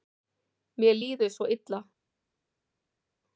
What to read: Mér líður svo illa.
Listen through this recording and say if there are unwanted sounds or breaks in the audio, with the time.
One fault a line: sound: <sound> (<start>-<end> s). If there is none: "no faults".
no faults